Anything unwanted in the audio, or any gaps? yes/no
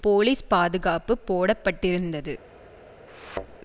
yes